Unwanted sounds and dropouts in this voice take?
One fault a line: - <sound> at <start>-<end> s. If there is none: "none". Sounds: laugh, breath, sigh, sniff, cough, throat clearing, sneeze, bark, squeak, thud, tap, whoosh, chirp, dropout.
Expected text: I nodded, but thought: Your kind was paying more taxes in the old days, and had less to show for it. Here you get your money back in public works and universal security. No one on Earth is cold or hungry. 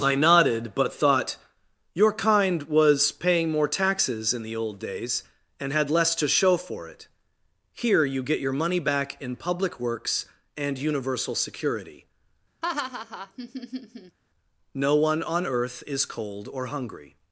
- laugh at 12.6-14.2 s